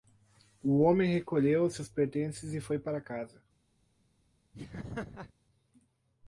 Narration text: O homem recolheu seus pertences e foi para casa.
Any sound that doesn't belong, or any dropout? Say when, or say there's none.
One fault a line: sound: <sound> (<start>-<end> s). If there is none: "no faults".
sound: laugh (4.5-5.3 s)